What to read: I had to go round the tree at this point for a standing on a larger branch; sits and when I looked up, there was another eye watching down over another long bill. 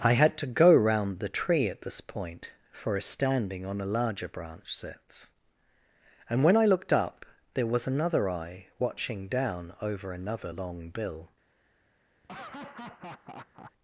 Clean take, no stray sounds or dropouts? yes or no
no